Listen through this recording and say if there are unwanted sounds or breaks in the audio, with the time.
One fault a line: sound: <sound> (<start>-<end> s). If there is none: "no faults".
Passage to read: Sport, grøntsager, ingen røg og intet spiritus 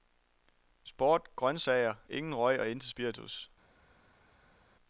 no faults